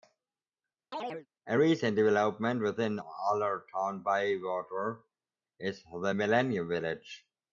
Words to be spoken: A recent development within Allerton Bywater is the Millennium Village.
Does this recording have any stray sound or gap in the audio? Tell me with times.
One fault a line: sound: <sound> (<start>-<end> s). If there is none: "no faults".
sound: chirp (0.9-1.3 s)